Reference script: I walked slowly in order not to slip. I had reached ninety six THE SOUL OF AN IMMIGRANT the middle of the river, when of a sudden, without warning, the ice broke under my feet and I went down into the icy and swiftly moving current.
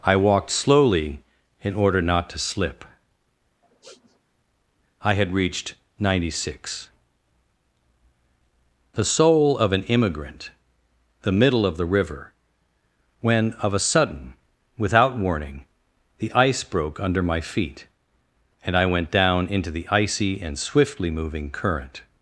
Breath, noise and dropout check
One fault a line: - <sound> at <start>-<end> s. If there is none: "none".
- sniff at 3.6-4.2 s